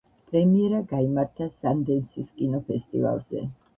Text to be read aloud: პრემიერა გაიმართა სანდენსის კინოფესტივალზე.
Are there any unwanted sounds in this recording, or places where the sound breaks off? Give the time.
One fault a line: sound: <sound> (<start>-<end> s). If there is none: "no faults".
no faults